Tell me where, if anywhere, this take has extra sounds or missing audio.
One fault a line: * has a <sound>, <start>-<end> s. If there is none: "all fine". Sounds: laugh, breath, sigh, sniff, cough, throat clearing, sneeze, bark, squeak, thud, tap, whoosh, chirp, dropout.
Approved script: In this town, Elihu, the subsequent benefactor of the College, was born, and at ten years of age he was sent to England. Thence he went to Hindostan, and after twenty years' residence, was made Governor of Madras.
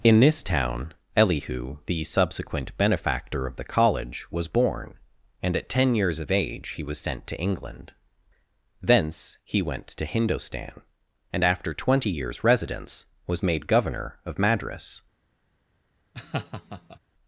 * has a laugh, 16.1-17.0 s